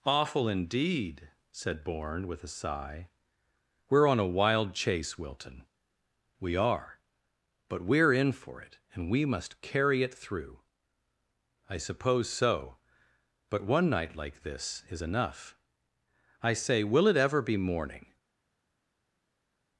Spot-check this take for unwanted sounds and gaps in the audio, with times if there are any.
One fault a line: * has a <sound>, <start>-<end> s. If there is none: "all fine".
all fine